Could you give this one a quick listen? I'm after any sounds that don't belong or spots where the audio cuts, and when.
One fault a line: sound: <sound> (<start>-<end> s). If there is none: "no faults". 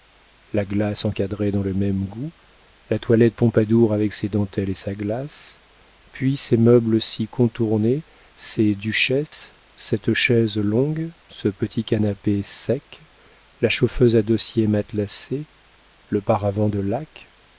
sound: dropout (9.3-9.3 s)